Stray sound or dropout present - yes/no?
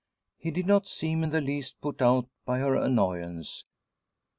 no